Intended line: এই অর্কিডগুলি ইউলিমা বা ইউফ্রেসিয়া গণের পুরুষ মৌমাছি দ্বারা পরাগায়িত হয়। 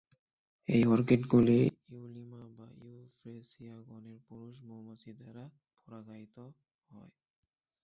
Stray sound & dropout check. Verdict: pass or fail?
pass